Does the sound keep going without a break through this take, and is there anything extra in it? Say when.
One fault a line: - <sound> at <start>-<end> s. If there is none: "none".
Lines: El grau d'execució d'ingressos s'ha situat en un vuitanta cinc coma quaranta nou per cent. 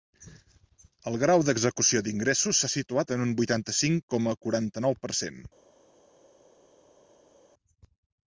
none